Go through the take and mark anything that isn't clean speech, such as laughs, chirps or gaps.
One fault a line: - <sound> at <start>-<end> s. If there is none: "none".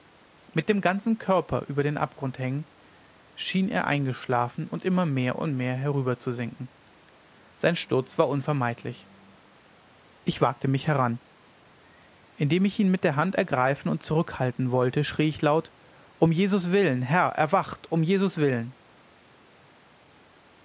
none